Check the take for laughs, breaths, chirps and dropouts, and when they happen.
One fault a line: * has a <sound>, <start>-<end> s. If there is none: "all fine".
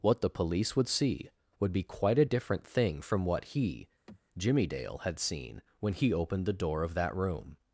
* has a sigh, 4.1-4.2 s